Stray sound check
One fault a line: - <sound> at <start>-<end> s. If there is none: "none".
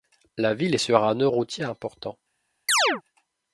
- chirp at 2.7-3.0 s